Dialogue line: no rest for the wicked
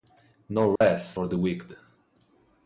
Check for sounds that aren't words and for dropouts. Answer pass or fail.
fail